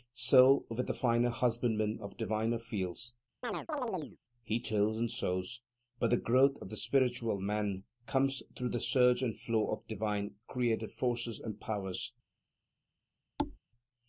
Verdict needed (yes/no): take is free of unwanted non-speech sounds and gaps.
no